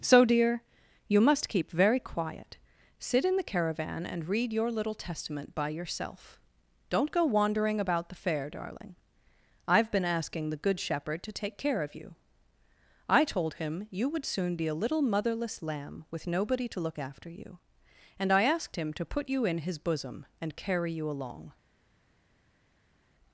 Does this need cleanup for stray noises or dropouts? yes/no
no